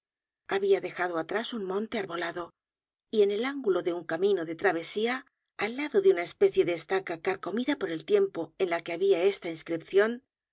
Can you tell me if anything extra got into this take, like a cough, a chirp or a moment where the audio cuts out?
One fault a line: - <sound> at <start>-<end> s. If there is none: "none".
none